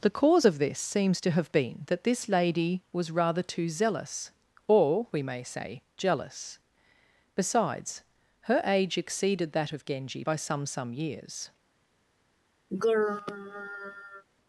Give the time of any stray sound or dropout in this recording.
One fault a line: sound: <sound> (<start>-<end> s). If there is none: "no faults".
sound: throat clearing (12.7-14.2 s)